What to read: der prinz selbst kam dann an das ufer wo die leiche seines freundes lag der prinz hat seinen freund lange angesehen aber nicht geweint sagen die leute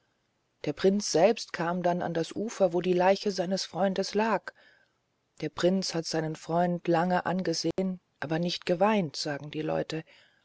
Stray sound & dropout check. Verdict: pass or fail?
fail